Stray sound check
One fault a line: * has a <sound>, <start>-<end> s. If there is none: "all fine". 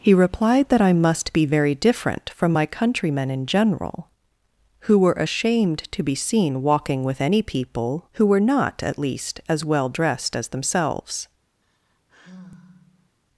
* has a sigh, 11.6-13.2 s